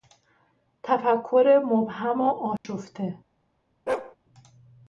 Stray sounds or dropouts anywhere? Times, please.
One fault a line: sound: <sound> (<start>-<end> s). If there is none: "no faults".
sound: dropout (2.6-2.6 s)
sound: bark (3.9-4.2 s)